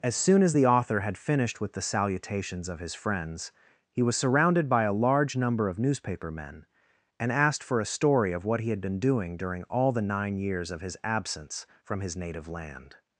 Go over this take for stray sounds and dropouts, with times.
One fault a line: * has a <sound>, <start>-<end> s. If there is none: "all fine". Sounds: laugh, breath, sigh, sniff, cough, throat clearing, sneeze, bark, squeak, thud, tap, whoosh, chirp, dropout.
all fine